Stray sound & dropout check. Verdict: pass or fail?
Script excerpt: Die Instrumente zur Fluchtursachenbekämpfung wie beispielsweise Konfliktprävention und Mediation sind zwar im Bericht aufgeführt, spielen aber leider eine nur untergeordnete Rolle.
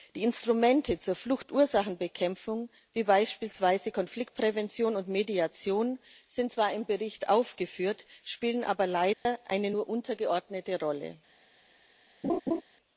fail